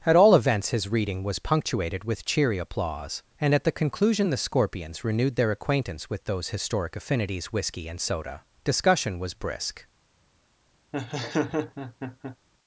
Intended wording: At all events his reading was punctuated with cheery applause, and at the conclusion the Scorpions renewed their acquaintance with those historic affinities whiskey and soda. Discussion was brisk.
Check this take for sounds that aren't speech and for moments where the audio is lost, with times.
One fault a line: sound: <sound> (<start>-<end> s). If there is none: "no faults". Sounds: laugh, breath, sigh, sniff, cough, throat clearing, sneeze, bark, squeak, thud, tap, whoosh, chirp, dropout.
sound: laugh (10.9-12.4 s)